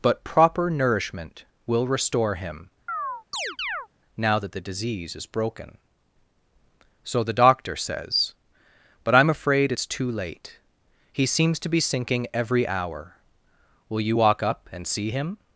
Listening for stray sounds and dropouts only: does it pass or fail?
fail